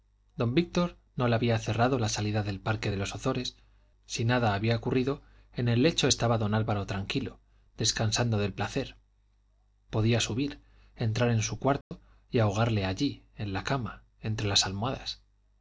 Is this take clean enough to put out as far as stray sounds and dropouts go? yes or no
no